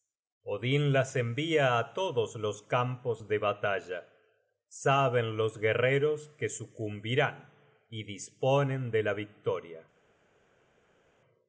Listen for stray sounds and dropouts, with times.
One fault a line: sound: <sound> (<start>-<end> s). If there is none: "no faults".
no faults